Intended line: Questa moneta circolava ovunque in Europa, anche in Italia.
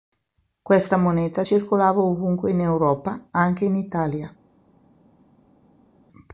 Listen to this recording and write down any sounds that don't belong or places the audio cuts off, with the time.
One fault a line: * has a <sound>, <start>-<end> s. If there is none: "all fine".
all fine